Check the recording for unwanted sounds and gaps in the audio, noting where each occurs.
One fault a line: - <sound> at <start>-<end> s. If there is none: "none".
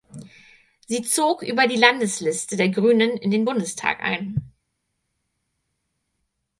none